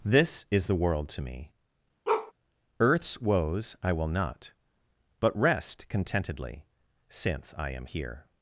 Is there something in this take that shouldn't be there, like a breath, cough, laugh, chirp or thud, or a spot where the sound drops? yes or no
yes